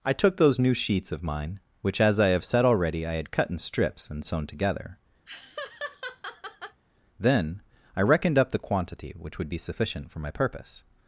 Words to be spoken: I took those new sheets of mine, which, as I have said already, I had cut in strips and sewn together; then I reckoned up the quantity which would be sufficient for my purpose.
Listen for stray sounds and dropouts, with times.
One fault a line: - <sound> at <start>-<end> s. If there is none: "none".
- laugh at 5.3-6.8 s